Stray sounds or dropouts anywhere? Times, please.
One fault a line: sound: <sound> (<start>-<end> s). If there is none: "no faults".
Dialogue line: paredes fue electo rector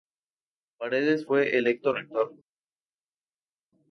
no faults